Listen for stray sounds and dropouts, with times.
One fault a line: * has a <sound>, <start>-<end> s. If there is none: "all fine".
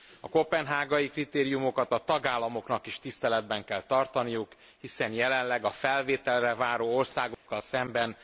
* has a dropout, 7.3-7.5 s